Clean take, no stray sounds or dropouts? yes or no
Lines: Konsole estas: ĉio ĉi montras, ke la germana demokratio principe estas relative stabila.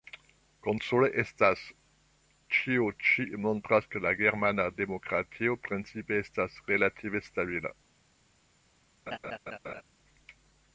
no